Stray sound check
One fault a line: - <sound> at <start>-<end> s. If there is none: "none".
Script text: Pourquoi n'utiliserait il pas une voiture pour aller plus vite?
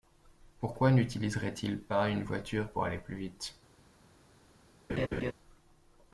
- laugh at 4.9-5.3 s